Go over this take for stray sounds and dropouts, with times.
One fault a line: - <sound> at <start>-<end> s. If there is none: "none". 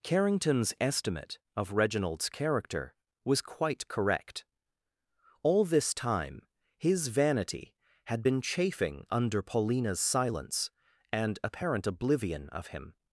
none